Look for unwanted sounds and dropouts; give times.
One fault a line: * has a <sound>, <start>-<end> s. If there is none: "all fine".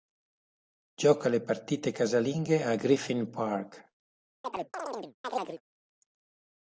* has a chirp, 4.4-5.6 s